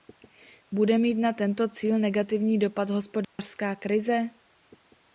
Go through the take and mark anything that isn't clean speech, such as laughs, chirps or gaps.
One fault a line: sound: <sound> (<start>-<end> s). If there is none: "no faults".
sound: dropout (3.2-3.4 s)